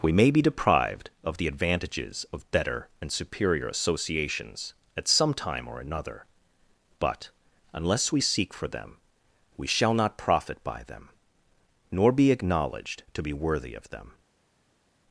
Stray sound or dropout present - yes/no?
no